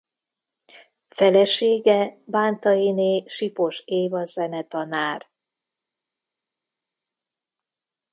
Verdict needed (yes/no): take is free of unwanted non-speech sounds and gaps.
yes